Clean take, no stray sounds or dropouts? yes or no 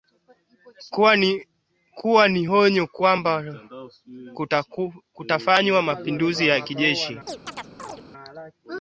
no